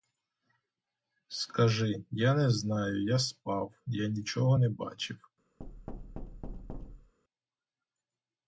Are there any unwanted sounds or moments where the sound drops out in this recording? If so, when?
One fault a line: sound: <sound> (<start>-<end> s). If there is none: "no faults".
sound: thud (5.6-7.1 s)